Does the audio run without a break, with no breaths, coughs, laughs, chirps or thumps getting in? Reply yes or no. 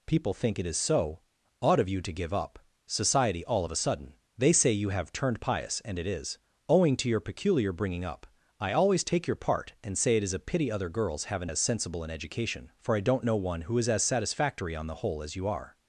yes